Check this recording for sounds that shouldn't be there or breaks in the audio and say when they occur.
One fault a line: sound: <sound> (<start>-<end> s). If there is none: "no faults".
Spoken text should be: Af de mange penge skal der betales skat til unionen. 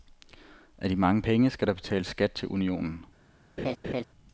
sound: laugh (3.6-4.0 s)